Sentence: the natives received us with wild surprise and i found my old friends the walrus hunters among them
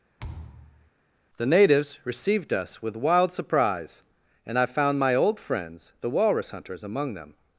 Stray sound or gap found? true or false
true